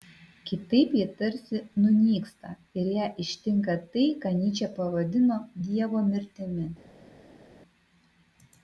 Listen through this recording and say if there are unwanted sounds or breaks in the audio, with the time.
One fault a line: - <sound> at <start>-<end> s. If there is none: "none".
none